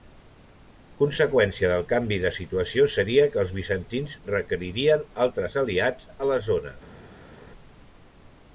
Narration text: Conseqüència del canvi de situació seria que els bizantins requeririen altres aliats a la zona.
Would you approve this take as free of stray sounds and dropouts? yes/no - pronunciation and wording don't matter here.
yes